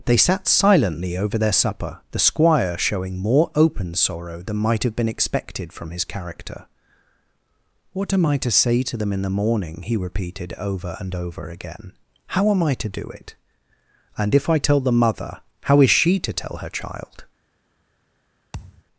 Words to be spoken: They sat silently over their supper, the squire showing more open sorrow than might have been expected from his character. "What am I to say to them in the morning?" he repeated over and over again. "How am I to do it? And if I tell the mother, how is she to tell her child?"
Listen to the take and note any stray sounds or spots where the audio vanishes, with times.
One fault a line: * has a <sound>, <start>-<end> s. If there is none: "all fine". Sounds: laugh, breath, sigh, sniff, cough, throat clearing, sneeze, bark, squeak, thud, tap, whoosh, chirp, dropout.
* has a thud, 18.5-18.8 s